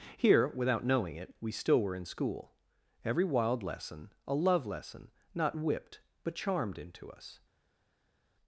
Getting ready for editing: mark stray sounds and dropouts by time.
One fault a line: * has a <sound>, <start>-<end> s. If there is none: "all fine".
all fine